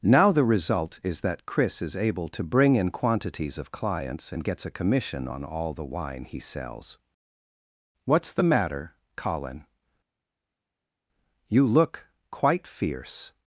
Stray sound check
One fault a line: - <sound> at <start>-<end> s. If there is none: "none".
none